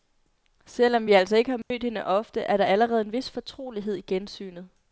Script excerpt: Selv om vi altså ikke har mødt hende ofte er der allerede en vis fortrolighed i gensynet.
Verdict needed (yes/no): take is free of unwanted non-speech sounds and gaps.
no